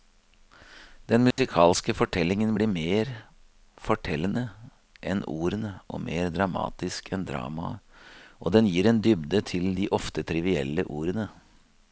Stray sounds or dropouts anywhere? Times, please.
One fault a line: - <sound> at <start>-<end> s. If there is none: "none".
- dropout at 1.3-1.4 s